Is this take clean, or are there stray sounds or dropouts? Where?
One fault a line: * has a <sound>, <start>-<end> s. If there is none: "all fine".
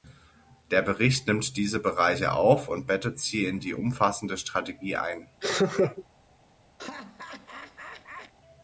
* has a laugh, 5.4-6.0 s
* has a laugh, 6.8-8.3 s